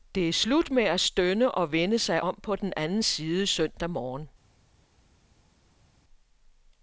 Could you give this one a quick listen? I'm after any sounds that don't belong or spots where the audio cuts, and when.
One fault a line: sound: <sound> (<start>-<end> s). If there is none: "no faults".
no faults